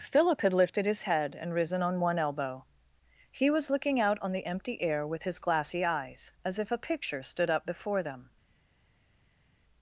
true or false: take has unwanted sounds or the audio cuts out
false